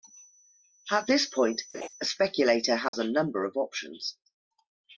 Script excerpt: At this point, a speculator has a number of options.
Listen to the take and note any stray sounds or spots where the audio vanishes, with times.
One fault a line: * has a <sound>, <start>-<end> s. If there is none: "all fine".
* has a laugh, 1.7-1.9 s
* has a dropout, 2.9-2.9 s